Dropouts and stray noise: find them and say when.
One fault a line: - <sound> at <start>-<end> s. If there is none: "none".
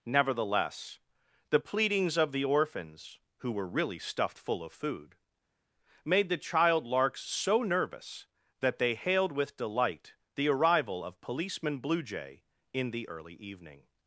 none